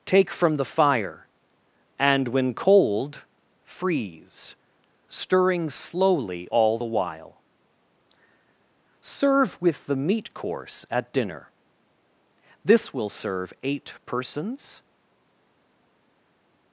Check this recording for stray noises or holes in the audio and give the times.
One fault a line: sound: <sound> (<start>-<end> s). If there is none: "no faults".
no faults